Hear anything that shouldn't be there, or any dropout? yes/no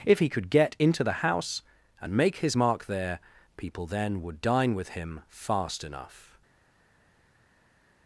no